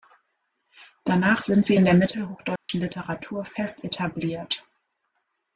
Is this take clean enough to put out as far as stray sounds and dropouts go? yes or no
no